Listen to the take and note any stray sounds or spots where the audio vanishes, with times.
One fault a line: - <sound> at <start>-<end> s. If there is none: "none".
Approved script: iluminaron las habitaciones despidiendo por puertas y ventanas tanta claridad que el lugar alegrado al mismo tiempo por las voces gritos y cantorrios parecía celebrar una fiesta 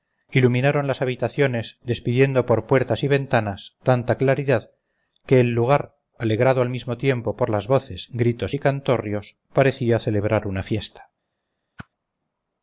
- whoosh at 11.8-11.9 s